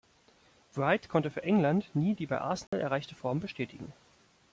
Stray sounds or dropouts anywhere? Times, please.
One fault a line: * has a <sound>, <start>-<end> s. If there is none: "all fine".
* has a dropout, 2.7-2.7 s